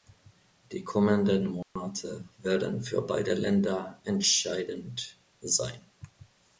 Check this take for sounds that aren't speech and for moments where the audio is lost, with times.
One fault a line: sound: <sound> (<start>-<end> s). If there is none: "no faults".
sound: dropout (1.6-1.8 s)